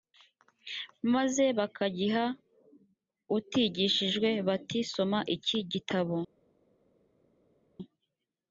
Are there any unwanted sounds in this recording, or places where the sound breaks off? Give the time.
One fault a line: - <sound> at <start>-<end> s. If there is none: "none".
none